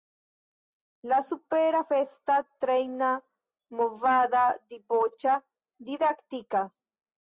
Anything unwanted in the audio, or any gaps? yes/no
no